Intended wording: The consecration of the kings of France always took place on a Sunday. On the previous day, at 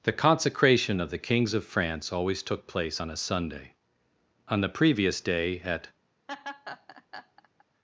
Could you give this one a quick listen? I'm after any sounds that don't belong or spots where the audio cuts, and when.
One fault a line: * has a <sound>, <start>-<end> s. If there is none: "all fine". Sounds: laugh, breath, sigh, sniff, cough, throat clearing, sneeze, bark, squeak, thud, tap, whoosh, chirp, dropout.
* has a laugh, 6.3-7.6 s